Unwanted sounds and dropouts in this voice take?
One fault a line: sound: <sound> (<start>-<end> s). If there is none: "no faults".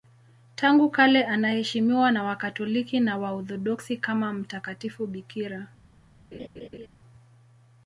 sound: laugh (6.3-6.9 s)